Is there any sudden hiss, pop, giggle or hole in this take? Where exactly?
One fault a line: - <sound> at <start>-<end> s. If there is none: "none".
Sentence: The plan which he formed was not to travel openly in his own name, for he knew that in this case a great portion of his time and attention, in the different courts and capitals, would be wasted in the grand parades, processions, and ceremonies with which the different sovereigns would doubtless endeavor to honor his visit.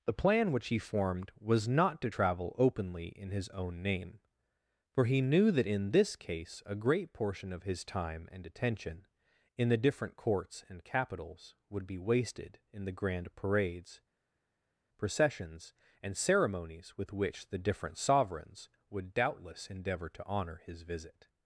none